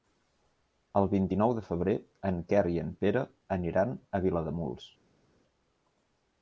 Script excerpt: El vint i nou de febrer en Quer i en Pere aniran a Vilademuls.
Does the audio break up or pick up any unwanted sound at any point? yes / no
no